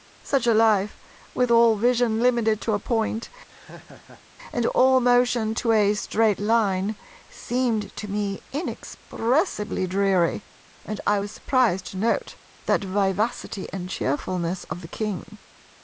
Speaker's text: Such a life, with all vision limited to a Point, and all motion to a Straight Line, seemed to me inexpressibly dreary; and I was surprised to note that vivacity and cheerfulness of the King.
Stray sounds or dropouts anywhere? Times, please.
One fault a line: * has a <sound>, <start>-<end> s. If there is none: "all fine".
* has a laugh, 3.5-4.2 s